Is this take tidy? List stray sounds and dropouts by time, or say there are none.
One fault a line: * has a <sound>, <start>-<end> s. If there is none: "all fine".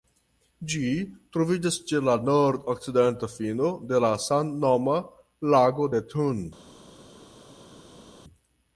all fine